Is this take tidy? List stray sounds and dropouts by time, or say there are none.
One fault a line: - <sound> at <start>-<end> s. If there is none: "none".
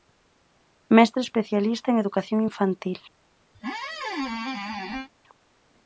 - squeak at 3.5-5.1 s